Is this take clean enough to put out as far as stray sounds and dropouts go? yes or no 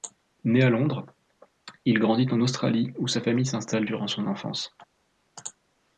yes